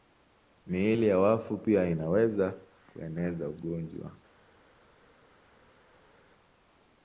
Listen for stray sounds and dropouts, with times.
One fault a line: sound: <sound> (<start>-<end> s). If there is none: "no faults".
no faults